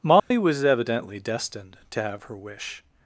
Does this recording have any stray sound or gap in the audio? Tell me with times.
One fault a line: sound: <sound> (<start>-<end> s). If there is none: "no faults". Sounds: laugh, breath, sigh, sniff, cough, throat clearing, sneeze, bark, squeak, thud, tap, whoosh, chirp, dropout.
sound: dropout (0.2-0.3 s)